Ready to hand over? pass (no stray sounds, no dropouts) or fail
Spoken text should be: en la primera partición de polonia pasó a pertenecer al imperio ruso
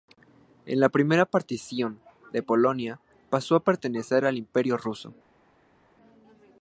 pass